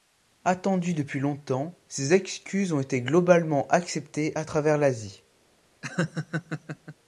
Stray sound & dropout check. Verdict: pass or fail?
fail